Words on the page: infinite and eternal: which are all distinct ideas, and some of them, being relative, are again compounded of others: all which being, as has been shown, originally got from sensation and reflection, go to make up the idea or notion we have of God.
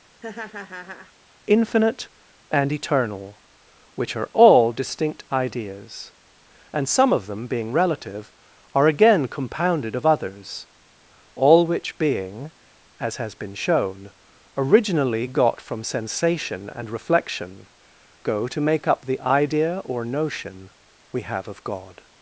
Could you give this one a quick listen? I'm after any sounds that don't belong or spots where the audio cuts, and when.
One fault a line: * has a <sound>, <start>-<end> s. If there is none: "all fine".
* has a laugh, 0.2-1.1 s